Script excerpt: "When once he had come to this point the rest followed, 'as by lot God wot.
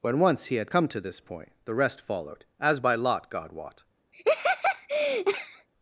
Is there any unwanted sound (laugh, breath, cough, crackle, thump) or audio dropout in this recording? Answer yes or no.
yes